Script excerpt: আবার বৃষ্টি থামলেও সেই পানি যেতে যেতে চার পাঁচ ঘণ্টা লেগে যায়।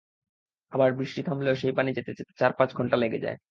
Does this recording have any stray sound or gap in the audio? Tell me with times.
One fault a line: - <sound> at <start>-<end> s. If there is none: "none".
none